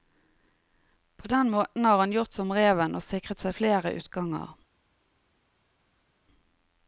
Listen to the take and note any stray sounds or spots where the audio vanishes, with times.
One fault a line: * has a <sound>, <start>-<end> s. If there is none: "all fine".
all fine